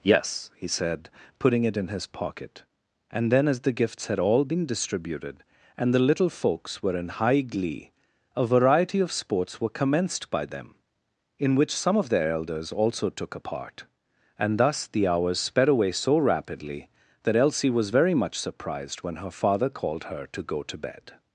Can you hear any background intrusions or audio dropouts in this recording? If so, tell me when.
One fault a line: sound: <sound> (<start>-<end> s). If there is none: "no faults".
no faults